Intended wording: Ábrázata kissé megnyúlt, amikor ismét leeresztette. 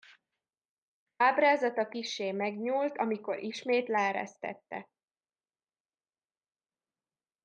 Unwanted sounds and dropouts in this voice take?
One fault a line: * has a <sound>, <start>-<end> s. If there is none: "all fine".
all fine